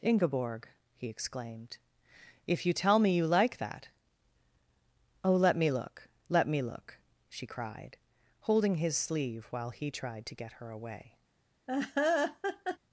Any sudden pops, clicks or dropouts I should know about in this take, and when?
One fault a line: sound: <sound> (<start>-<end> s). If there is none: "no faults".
sound: laugh (11.7-12.8 s)